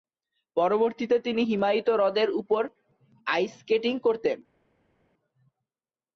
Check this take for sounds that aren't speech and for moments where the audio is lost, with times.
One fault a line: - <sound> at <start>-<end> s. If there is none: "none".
none